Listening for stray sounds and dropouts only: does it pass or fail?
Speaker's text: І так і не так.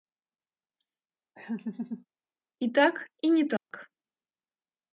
fail